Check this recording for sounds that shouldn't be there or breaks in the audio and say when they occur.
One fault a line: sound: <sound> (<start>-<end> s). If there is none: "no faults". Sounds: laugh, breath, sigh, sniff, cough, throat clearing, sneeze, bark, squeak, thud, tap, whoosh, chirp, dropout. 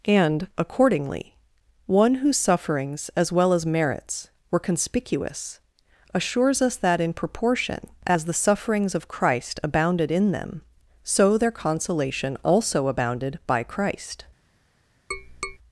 sound: tap (15.1-15.6 s)